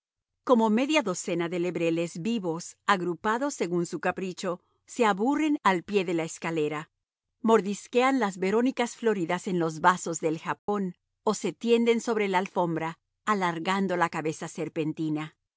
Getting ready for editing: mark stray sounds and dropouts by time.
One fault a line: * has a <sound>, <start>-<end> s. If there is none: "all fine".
* has a dropout, 10.6-10.7 s